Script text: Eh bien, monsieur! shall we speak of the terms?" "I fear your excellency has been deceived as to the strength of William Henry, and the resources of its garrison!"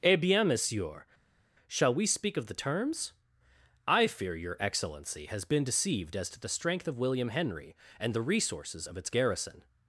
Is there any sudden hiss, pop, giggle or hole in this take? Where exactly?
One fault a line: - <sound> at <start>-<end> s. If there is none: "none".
none